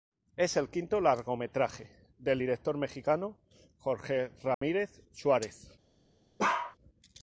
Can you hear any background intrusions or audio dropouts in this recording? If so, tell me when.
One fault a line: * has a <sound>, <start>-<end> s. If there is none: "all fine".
* has a dropout, 4.5-4.6 s
* has a bark, 6.4-6.8 s